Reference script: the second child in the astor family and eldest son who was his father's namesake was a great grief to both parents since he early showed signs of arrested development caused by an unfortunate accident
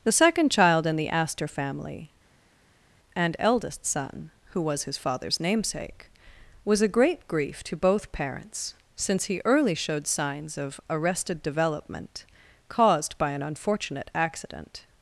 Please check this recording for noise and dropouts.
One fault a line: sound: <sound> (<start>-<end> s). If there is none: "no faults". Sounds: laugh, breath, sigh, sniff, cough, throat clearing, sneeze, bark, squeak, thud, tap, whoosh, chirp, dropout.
no faults